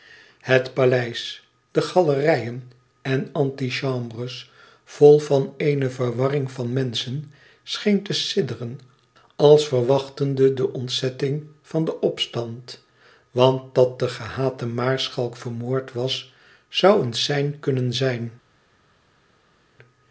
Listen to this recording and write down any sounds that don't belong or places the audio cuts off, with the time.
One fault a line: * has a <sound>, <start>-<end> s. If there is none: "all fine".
all fine